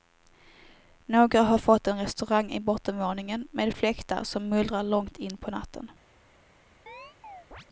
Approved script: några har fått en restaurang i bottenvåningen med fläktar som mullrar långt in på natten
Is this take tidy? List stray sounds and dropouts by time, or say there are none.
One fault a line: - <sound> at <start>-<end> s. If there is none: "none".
- chirp at 6.9-7.7 s